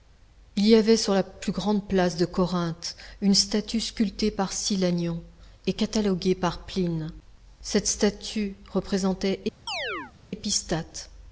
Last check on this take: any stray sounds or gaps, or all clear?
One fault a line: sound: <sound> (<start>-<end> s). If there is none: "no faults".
sound: chirp (9.7-10.1 s)